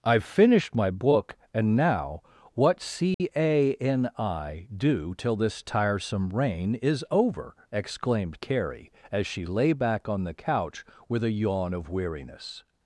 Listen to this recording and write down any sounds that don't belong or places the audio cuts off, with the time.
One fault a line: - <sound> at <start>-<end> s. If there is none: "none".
- dropout at 3.1-3.2 s